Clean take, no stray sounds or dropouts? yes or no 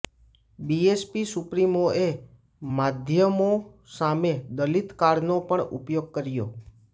yes